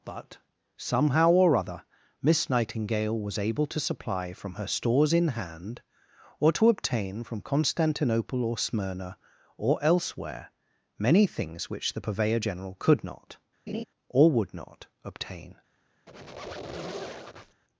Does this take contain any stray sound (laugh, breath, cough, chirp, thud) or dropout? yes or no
yes